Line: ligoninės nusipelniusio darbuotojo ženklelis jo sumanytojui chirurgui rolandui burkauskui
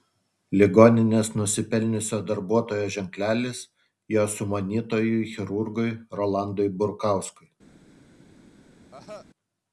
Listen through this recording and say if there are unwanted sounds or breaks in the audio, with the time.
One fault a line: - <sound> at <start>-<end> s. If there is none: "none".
- cough at 8.9-9.3 s